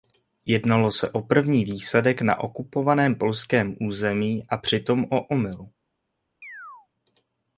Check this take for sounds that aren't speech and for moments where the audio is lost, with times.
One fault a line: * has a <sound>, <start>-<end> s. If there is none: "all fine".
* has a chirp, 6.4-6.9 s